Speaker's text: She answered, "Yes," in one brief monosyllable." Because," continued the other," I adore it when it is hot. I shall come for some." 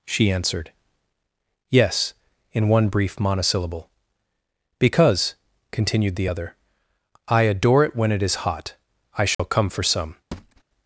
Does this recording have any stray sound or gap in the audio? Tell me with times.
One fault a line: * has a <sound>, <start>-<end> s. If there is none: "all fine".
* has a dropout, 9.3-9.4 s
* has a thud, 10.3-10.6 s